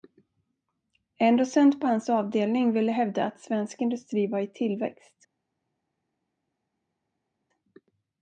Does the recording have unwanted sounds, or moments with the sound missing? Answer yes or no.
no